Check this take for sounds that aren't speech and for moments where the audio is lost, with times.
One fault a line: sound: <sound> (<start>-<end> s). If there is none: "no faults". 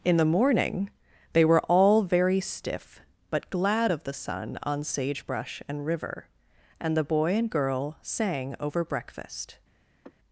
sound: sigh (10.0-10.1 s)